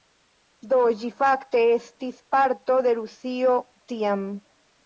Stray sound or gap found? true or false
false